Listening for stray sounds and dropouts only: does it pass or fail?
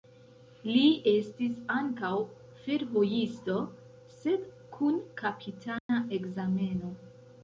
fail